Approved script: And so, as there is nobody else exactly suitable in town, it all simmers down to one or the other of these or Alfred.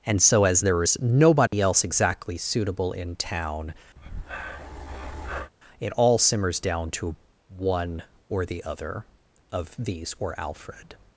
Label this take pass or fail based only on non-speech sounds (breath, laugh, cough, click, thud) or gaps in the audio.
fail